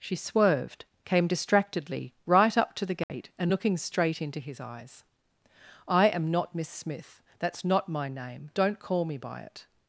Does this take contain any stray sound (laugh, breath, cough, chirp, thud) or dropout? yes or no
yes